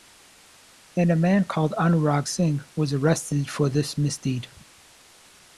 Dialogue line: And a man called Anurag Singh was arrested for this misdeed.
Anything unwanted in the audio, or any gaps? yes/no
no